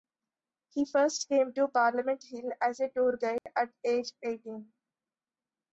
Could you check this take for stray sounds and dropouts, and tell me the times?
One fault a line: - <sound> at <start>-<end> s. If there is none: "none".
- dropout at 3.4-3.5 s